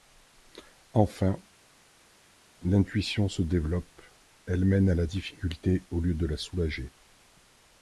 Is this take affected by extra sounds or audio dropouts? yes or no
no